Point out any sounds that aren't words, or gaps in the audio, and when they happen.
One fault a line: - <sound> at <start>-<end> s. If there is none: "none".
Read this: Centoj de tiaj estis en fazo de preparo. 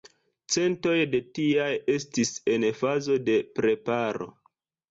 none